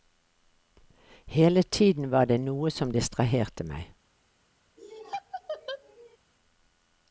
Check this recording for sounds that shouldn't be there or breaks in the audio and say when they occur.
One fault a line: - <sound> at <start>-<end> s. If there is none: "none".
- laugh at 4.8-6.2 s